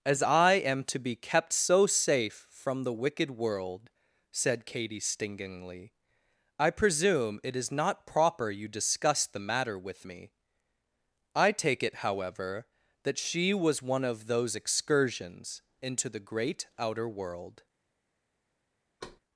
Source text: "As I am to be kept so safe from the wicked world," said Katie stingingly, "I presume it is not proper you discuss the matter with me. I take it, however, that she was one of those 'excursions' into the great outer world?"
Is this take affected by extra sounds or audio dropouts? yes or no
yes